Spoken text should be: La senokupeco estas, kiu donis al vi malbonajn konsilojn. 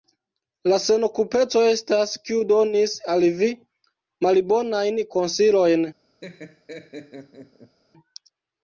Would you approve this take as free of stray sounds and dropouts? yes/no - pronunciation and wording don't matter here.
no